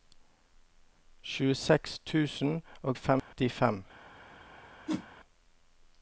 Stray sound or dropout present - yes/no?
yes